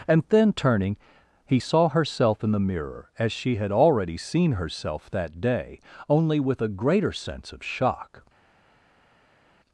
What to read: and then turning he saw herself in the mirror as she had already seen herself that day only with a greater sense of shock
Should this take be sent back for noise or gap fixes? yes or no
no